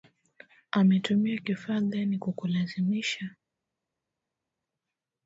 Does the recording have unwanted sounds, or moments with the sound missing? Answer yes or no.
no